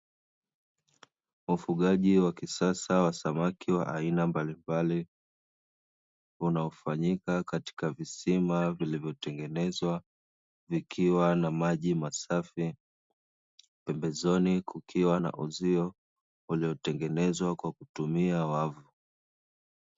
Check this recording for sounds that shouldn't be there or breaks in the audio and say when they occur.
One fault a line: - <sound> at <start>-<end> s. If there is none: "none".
none